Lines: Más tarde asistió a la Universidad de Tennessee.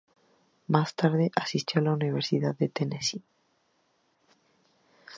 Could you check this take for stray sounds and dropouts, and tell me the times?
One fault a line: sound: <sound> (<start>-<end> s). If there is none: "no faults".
no faults